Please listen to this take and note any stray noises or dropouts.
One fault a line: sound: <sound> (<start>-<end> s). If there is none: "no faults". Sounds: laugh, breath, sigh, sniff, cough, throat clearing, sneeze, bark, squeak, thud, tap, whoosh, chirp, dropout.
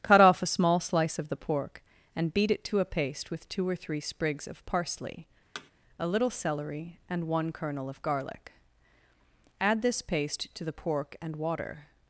sound: thud (5.5-5.7 s)